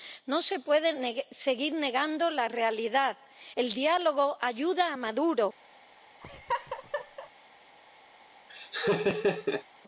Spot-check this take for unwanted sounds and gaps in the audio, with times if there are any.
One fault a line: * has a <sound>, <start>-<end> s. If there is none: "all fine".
* has a laugh, 6.2-7.3 s
* has a laugh, 8.5-9.6 s